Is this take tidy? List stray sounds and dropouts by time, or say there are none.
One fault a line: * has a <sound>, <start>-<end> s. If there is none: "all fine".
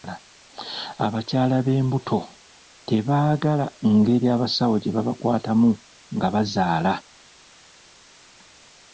all fine